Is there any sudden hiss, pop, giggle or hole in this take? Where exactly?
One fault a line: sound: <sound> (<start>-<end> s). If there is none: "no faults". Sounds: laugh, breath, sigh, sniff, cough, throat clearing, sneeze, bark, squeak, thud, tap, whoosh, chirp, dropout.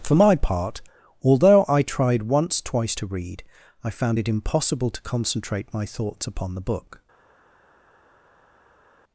no faults